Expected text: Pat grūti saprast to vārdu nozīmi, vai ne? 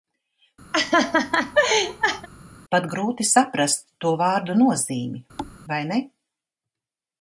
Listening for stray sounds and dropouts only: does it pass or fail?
fail